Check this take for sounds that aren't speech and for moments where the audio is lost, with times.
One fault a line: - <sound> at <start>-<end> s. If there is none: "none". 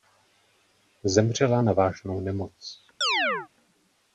- chirp at 3.0-3.5 s